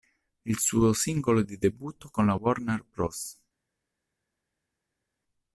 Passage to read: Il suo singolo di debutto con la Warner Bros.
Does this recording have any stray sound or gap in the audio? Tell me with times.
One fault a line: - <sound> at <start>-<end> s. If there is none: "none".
none